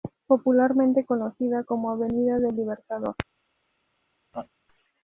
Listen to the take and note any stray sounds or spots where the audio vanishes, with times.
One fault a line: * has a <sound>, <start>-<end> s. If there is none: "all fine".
* has a laugh, 4.3-4.5 s